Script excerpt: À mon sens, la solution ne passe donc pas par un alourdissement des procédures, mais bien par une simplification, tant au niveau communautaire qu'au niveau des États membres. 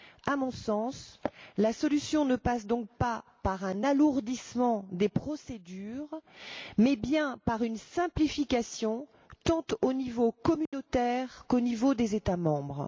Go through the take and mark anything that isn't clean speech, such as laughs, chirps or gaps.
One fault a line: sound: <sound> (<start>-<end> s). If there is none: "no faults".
sound: dropout (10.7-10.7 s)